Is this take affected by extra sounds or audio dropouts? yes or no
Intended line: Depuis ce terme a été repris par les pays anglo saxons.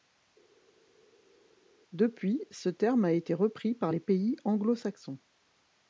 no